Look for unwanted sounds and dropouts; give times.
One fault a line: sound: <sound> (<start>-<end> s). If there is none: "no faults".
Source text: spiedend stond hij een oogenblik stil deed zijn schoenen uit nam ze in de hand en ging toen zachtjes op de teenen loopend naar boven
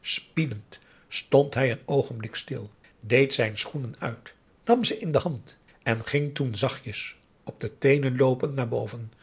no faults